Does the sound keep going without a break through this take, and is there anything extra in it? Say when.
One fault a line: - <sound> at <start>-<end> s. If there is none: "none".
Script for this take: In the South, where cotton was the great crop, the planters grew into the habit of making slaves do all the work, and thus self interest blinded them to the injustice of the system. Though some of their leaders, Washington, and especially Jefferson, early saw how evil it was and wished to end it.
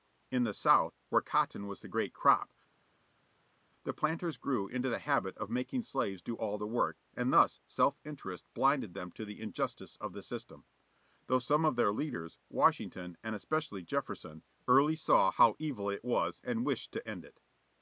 none